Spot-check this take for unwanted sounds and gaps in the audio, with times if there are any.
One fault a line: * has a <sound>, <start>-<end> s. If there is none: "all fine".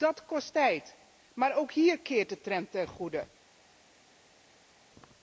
all fine